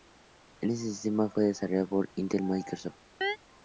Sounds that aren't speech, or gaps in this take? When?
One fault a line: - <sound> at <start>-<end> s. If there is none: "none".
- chirp at 3.2-3.4 s